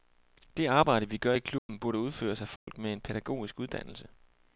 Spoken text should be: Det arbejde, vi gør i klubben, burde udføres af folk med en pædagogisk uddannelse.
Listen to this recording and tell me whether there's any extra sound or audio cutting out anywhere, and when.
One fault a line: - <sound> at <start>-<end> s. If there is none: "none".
- dropout at 1.6-1.7 s
- dropout at 2.6-2.7 s